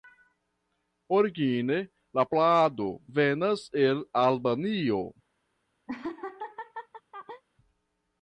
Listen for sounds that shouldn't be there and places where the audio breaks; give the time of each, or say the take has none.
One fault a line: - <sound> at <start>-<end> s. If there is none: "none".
- laugh at 5.9-7.4 s